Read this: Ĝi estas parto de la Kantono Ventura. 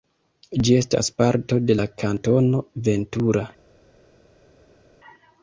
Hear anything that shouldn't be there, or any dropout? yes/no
no